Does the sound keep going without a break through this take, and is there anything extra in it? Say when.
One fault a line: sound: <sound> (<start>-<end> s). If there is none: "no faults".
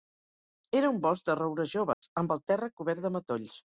sound: dropout (1.9-2.0 s)